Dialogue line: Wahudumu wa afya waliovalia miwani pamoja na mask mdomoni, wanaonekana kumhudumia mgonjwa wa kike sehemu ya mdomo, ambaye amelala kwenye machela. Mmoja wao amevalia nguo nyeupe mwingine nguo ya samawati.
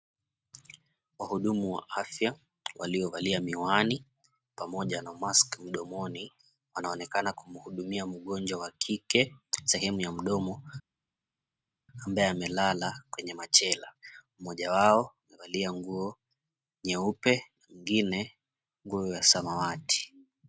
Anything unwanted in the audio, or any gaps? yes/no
no